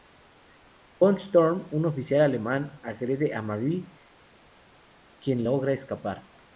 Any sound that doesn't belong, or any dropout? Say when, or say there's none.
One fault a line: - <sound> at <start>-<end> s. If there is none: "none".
none